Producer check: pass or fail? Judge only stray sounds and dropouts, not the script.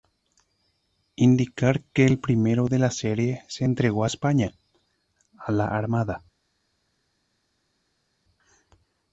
pass